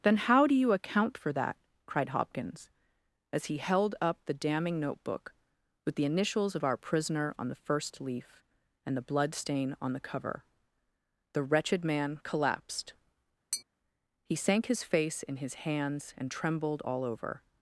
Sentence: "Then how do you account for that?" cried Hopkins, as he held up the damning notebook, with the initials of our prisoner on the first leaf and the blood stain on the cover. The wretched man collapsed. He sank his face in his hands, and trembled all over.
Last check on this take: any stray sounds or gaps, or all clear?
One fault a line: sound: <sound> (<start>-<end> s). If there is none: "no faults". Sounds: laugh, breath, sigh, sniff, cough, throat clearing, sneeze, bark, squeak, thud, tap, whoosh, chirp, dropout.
sound: tap (13.5-13.6 s)